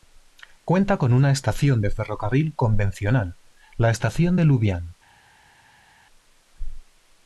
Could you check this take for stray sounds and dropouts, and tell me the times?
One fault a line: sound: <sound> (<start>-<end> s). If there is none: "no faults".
no faults